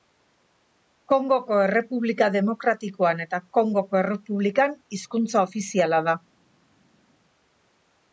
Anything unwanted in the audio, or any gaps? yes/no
no